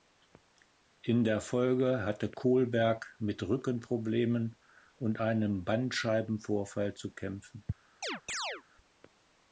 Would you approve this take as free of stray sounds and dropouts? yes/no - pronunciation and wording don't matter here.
no